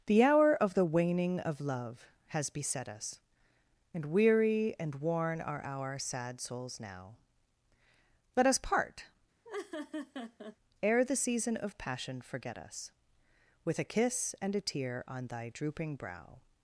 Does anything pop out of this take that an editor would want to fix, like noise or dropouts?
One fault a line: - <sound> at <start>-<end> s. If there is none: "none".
- laugh at 9.4-10.6 s